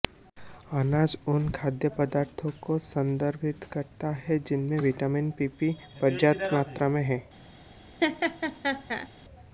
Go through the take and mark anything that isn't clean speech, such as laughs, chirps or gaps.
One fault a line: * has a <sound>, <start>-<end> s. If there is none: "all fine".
* has a laugh, 8.0-9.1 s